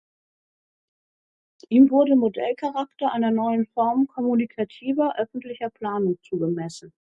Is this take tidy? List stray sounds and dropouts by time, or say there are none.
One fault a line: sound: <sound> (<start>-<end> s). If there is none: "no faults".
no faults